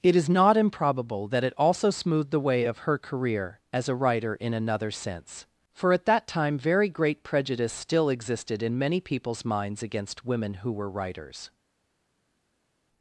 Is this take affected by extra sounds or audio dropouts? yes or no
no